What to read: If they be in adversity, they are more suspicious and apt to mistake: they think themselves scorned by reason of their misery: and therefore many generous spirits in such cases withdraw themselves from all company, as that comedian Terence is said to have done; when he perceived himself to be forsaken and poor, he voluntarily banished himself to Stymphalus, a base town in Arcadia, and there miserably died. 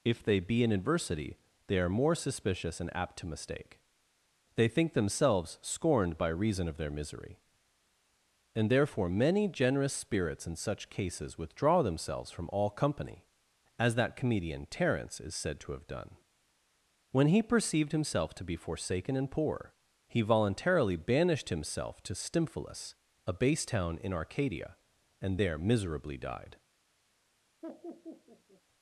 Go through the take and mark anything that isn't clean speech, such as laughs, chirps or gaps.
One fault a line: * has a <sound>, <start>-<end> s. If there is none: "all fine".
* has a laugh, 27.6-28.6 s